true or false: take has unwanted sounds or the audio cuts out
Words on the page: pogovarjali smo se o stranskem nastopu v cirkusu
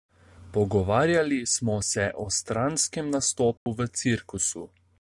true